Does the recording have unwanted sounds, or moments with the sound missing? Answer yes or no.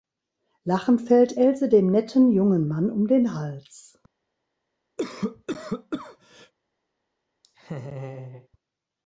yes